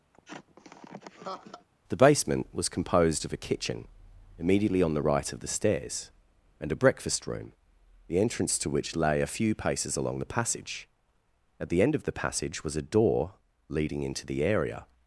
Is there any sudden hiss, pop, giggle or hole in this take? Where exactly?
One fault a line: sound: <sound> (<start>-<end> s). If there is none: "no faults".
sound: laugh (0.1-1.7 s)